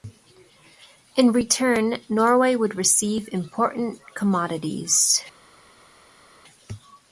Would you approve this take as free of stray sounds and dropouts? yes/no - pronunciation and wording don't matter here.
yes